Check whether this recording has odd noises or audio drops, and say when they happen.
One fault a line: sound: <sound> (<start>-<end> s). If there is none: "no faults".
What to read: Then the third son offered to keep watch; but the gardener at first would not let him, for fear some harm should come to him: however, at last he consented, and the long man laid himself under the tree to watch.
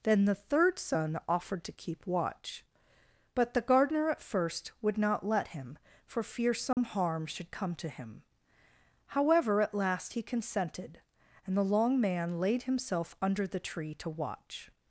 sound: dropout (6.7-6.8 s)